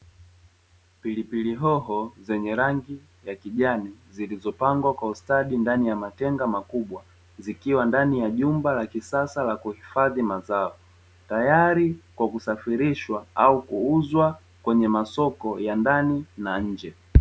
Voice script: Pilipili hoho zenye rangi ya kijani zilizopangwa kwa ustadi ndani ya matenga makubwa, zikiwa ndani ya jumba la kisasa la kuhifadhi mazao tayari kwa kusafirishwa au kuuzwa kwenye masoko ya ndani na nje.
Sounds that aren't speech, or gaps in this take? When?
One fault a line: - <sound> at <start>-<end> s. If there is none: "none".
none